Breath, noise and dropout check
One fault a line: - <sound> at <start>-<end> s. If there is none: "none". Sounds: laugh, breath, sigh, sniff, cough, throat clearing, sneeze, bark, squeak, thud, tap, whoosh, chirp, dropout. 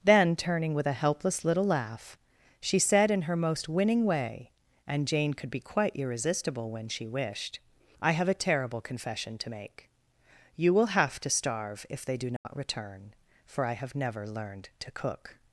- dropout at 12.4-12.5 s